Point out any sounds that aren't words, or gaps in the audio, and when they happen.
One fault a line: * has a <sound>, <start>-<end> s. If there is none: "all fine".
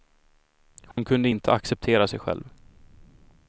* has a dropout, 0.9-1.0 s